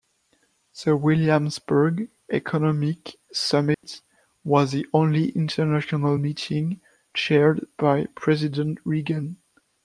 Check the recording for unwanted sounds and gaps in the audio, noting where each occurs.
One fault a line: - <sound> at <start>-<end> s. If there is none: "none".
- dropout at 3.7-3.8 s